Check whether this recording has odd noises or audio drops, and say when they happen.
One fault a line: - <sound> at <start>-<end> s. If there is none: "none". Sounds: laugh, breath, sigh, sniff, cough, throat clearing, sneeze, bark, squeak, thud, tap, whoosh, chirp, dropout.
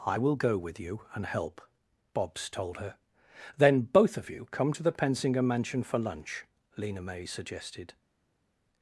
none